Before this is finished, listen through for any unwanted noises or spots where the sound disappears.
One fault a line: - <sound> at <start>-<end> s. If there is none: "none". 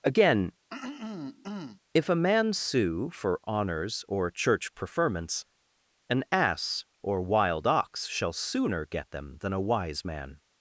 - throat clearing at 0.7-1.8 s